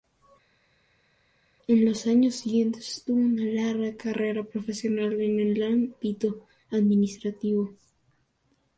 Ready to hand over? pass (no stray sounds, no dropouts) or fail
pass